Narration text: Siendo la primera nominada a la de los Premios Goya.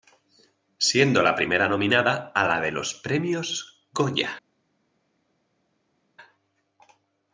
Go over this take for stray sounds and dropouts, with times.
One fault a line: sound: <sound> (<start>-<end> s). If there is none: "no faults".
no faults